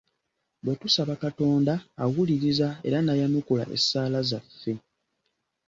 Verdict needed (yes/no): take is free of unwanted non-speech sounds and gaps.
yes